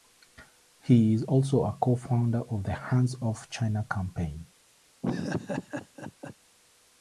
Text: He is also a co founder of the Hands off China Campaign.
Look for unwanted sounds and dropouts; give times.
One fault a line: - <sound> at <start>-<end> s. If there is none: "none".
- laugh at 5.0-6.4 s